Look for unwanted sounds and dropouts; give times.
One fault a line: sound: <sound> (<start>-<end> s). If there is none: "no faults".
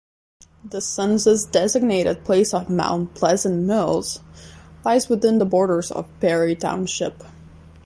no faults